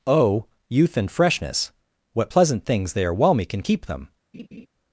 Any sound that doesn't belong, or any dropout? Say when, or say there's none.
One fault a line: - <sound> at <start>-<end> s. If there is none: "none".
- laugh at 4.3-4.7 s